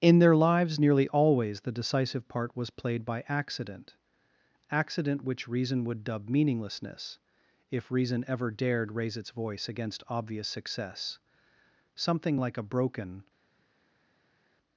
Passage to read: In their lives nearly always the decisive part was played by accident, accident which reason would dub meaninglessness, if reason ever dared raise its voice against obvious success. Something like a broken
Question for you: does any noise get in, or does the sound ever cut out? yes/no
no